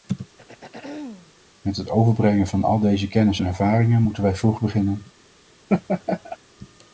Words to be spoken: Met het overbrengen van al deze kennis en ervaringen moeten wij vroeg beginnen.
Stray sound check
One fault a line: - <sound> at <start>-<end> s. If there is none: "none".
- throat clearing at 0.4-1.3 s
- laugh at 5.7-6.4 s